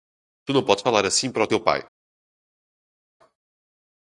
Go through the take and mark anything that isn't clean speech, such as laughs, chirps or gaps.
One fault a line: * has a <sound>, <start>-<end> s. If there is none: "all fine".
all fine